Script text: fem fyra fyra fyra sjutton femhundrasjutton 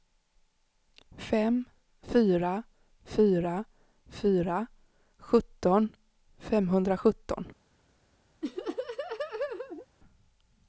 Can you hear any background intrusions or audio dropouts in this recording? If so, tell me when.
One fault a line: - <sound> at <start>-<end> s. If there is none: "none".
- laugh at 8.4-9.9 s